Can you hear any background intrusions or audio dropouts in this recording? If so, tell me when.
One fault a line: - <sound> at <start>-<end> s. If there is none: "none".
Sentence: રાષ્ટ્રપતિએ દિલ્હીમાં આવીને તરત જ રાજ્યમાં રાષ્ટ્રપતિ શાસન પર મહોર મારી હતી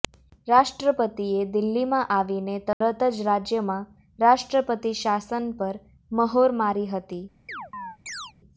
- dropout at 2.7-2.8 s
- chirp at 7.5-8.3 s